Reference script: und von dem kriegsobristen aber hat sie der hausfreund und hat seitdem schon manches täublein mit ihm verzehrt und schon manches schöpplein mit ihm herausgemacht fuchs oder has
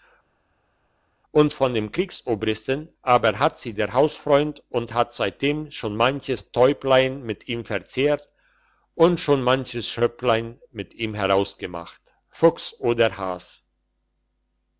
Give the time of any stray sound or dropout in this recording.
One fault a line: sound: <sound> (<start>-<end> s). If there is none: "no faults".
no faults